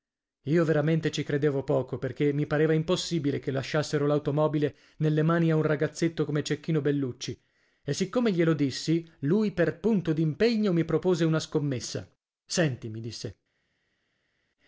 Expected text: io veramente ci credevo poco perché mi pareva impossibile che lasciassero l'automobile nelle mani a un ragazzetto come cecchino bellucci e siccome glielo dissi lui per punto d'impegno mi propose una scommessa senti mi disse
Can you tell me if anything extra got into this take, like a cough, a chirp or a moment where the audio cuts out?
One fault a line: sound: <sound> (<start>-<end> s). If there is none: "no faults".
no faults